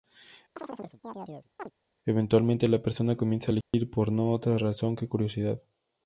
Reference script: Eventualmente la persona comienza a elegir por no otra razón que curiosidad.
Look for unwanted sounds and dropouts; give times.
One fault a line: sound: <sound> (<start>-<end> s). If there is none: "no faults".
sound: chirp (0.6-1.7 s)
sound: dropout (3.6-3.7 s)